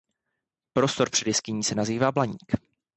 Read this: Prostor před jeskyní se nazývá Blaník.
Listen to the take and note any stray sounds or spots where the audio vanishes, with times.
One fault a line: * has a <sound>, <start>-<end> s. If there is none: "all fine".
all fine